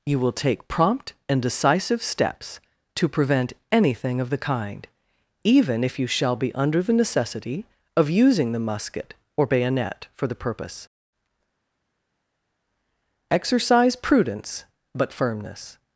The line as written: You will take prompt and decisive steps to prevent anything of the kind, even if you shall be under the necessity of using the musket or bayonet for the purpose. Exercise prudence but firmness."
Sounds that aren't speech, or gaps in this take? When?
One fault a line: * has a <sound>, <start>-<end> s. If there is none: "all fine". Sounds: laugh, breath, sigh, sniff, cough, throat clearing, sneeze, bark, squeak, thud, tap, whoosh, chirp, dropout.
all fine